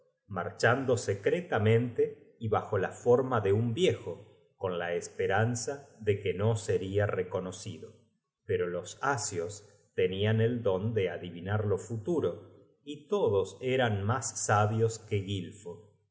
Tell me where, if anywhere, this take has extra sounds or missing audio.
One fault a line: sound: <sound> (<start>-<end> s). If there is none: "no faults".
no faults